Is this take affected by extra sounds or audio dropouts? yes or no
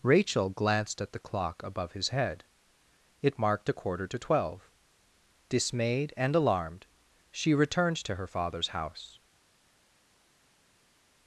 no